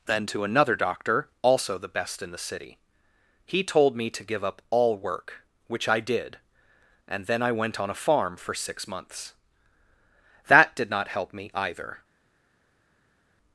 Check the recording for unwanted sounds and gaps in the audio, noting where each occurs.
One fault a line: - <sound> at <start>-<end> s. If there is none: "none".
none